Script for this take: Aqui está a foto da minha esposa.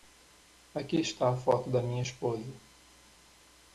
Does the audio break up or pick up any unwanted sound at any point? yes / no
no